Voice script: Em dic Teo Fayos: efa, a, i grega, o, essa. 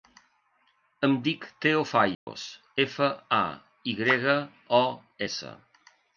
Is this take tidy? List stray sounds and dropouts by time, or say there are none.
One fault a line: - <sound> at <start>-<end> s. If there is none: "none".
- dropout at 2.1-2.3 s